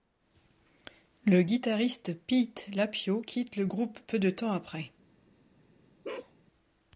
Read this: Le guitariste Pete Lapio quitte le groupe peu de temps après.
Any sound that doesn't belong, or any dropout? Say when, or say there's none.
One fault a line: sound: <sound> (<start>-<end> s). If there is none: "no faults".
sound: bark (6.0-6.3 s)